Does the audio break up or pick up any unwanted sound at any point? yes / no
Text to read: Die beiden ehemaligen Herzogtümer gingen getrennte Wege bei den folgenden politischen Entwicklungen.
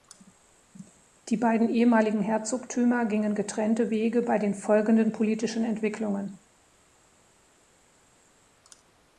no